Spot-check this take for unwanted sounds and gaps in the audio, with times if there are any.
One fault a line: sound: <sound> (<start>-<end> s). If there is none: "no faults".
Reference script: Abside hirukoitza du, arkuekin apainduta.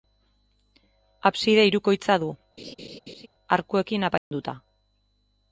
sound: laugh (2.6-3.3 s)
sound: dropout (4.2-4.3 s)